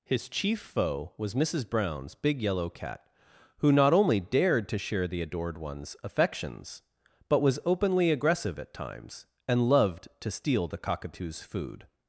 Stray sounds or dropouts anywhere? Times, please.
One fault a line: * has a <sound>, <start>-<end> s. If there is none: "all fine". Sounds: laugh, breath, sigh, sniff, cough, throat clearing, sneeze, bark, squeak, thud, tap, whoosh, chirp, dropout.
all fine